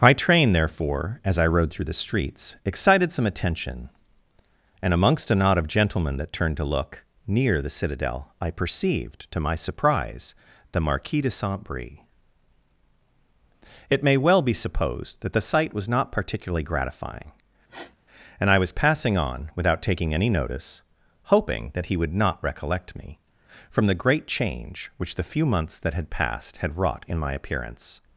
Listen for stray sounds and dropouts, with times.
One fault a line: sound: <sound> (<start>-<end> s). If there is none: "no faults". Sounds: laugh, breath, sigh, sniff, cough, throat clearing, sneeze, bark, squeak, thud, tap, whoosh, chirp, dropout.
sound: sniff (17.7-18.0 s)